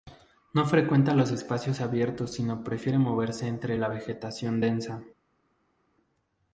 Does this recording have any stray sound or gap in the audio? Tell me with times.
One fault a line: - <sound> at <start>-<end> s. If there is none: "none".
none